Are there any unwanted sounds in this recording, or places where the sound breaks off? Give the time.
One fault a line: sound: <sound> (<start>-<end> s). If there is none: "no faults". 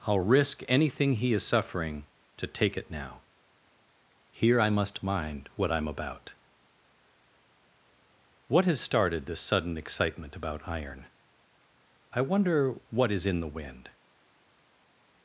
no faults